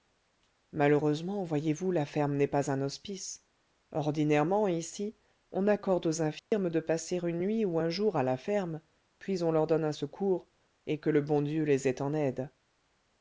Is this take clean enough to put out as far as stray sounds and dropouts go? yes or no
no